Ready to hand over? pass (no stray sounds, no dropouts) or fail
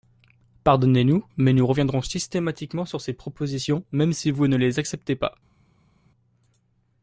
pass